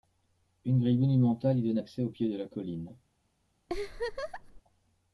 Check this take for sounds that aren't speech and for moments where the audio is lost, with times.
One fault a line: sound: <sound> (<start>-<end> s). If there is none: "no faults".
sound: laugh (3.7-4.6 s)